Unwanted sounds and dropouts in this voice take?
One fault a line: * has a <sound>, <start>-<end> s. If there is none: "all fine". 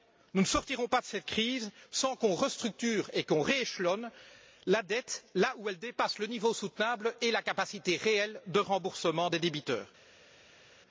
all fine